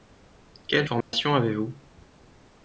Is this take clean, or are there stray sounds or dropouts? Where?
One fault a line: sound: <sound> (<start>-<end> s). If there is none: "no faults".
sound: dropout (1.0-1.1 s)